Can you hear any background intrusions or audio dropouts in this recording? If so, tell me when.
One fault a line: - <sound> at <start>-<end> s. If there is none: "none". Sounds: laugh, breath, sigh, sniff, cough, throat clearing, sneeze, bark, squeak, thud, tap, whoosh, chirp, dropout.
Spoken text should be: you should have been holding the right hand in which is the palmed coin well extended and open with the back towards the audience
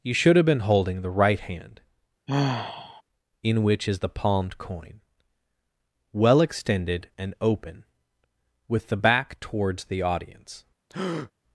- sigh at 2.3-3.0 s
- breath at 10.9-11.3 s